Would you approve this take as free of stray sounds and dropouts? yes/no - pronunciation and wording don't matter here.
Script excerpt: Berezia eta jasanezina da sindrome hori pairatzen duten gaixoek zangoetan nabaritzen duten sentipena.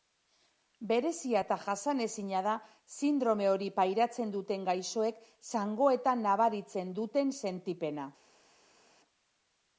yes